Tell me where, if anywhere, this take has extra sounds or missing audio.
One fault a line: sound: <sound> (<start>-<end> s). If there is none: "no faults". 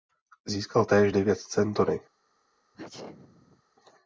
sound: sneeze (2.7-3.6 s)